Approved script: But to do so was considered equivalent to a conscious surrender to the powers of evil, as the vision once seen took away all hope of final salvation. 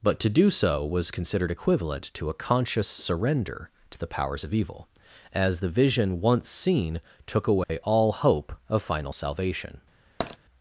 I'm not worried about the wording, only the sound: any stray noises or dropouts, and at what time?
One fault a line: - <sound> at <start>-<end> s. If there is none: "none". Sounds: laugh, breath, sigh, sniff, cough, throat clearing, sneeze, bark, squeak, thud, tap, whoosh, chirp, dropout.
- dropout at 7.6-7.7 s
- tap at 10.2-10.4 s